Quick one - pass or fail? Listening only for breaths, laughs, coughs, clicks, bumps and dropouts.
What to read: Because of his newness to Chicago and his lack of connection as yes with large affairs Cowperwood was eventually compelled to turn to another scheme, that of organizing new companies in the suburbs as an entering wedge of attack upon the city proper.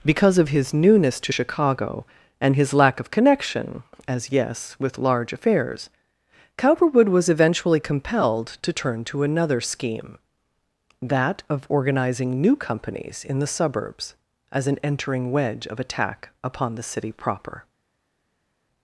pass